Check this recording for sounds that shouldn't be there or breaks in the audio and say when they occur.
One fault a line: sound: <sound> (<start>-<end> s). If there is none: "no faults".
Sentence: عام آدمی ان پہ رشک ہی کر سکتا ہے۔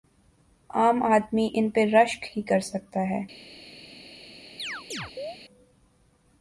sound: chirp (4.6-5.4 s)